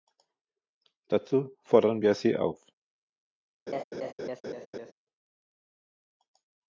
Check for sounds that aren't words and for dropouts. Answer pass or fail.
fail